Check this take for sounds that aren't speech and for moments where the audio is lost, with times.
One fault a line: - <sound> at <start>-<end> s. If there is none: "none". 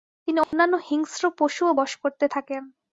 - dropout at 0.4-0.5 s